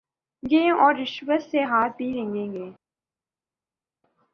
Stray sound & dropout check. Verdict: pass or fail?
pass